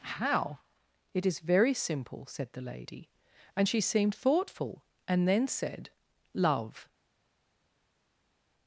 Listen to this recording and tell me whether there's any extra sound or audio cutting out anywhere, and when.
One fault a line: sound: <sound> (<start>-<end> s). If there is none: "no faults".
no faults